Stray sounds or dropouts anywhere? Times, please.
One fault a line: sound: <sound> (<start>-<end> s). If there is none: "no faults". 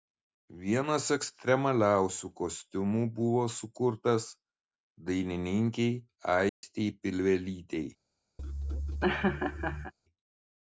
sound: dropout (6.5-6.6 s)
sound: laugh (8.4-9.9 s)